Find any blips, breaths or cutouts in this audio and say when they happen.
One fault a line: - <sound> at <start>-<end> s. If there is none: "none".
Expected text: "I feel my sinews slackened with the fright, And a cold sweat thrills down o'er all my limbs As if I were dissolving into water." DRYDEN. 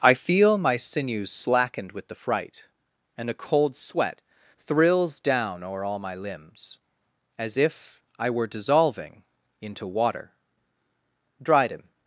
none